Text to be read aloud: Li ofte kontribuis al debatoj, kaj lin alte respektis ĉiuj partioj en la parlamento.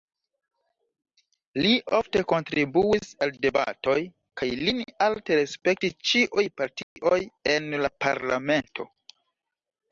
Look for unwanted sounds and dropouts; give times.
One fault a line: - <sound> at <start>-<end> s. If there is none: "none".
- dropout at 6.8-7.0 s